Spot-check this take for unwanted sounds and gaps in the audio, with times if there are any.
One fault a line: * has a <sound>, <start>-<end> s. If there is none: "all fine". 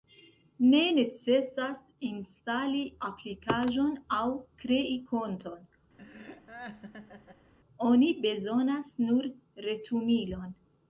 * has a laugh, 6.0-7.5 s